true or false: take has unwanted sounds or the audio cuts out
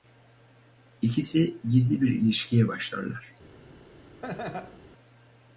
true